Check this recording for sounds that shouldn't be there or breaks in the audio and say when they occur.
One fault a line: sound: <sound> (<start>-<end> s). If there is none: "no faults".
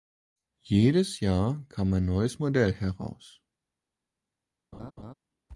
sound: laugh (4.7-5.1 s)